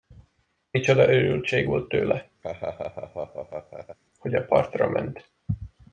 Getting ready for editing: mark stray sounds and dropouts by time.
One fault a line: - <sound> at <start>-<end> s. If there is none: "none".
- laugh at 2.4-4.0 s